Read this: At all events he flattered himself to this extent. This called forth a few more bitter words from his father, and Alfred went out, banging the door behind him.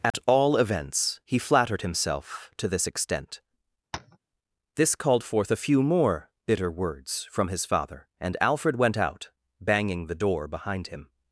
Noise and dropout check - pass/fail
fail